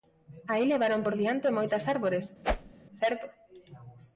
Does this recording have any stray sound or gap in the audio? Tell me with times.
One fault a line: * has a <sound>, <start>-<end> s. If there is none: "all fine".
* has a whoosh, 2.4-2.7 s